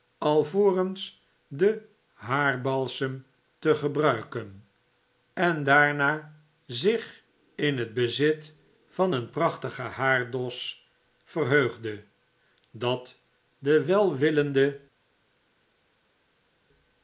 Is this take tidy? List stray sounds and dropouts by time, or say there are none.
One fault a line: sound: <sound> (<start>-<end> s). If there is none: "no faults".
no faults